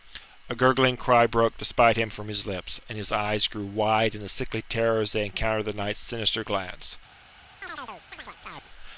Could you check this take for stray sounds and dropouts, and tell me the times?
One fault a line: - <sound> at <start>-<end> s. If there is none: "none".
- chirp at 7.6-8.7 s